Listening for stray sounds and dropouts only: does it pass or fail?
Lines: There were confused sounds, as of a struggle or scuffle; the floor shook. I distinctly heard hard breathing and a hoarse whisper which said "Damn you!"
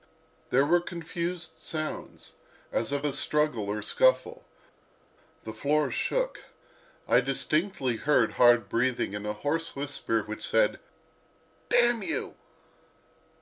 pass